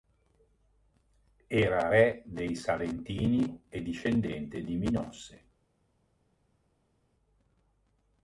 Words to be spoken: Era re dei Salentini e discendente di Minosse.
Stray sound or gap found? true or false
false